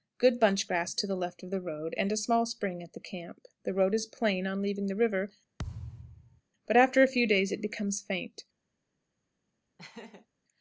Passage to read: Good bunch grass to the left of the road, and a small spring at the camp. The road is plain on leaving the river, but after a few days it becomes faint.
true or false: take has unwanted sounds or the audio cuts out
true